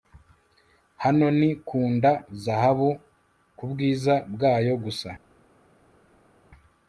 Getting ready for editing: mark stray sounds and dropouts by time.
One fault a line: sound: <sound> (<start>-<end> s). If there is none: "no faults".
no faults